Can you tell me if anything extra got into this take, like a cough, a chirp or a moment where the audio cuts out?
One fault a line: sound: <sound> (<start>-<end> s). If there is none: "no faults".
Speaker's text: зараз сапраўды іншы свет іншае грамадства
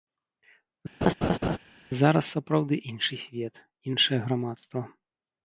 sound: laugh (1.0-1.6 s)